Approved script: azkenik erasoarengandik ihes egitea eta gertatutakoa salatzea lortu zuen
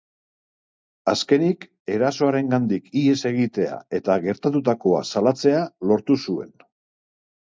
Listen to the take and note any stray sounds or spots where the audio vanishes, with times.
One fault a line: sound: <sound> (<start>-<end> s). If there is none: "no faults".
no faults